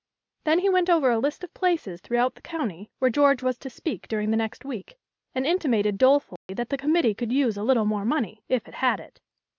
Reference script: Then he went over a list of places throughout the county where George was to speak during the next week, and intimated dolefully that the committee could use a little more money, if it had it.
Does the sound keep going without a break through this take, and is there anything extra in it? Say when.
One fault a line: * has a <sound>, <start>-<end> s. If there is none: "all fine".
* has a dropout, 6.4-6.5 s